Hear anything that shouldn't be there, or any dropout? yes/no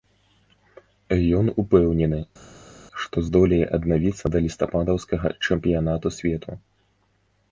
no